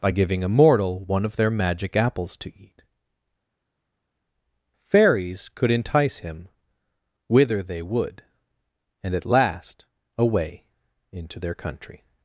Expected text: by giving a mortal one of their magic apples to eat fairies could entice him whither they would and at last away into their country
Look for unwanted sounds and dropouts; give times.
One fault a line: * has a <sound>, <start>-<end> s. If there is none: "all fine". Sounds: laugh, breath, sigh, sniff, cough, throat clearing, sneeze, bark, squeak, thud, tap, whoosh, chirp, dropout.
all fine